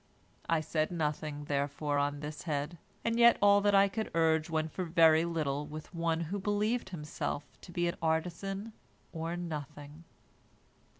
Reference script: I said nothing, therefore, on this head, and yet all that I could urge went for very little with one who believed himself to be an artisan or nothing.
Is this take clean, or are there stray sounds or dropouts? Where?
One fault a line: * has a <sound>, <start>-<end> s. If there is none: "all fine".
all fine